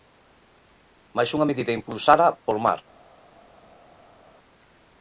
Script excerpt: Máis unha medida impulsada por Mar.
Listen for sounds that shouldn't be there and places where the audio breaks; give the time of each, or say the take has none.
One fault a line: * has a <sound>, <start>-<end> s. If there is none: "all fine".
all fine